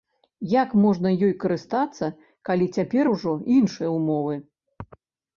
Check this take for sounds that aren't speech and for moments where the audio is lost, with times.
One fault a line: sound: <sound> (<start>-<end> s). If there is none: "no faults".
no faults